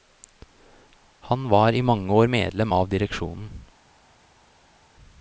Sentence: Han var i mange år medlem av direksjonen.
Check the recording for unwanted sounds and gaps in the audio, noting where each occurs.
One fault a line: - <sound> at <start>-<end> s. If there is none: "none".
none